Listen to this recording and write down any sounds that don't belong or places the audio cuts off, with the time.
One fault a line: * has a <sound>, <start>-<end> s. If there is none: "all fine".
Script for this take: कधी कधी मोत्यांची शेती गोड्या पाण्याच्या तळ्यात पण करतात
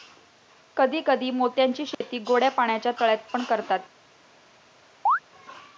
* has a dropout, 1.9-2.0 s
* has a chirp, 5.1-5.2 s